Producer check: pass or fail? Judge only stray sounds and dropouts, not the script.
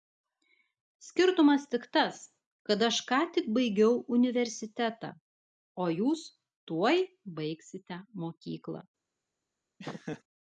fail